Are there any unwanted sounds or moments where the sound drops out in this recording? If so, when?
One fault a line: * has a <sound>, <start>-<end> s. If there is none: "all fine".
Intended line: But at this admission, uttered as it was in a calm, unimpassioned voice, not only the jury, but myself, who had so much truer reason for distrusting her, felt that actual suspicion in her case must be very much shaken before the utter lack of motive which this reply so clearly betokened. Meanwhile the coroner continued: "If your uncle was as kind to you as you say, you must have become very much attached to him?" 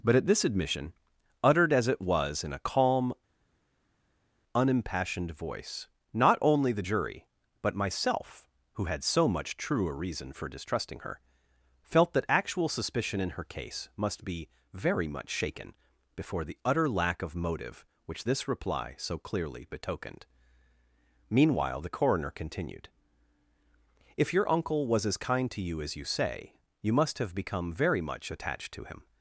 all fine